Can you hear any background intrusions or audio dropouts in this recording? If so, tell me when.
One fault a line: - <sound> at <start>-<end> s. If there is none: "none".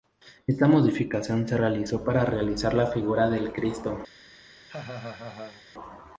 - laugh at 4.7-5.6 s